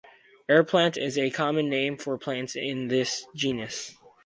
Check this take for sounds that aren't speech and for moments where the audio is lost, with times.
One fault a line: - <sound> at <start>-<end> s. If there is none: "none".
none